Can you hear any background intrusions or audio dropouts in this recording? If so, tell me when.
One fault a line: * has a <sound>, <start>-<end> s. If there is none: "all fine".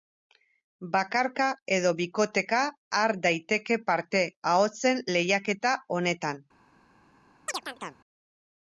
* has a chirp, 7.5-8.0 s